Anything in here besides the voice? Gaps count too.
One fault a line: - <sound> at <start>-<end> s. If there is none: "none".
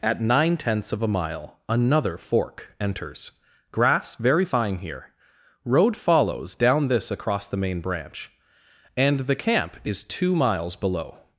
none